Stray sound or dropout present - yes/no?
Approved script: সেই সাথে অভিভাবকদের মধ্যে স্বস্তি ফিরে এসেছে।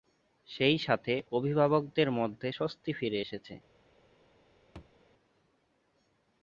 yes